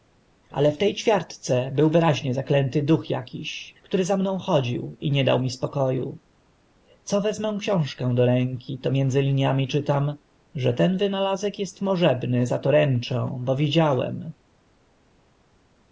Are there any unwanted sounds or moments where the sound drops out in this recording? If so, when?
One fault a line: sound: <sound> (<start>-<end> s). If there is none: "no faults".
no faults